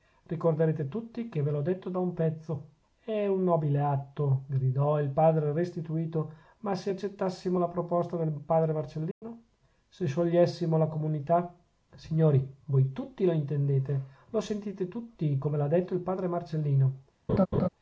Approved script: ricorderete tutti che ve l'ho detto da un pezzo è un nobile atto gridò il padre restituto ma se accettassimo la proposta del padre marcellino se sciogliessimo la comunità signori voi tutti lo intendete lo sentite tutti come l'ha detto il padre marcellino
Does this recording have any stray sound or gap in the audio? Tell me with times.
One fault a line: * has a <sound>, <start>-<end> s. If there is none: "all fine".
* has a dropout, 9.1-9.2 s
* has a laugh, 17.3-17.7 s